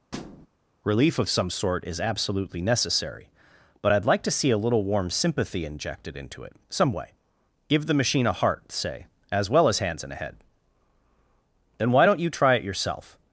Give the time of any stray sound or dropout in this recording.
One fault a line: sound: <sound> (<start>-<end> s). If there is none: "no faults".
sound: thud (0.1-0.5 s)